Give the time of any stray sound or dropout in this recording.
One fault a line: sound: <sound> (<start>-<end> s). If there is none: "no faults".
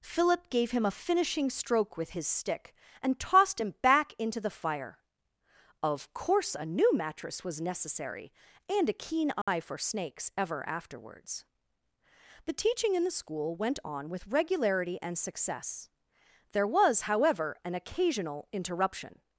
sound: dropout (9.4-9.5 s)